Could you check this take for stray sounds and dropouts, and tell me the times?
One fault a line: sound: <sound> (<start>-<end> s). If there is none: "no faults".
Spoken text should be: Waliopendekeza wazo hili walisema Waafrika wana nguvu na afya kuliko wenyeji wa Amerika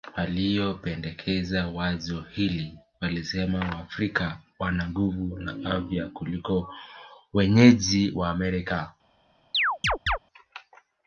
sound: chirp (9.5-10.2 s)